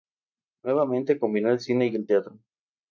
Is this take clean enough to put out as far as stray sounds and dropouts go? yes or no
yes